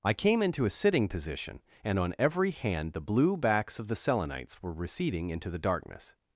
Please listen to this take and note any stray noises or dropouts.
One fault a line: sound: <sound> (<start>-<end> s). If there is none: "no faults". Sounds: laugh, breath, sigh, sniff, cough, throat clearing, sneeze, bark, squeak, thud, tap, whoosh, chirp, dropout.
no faults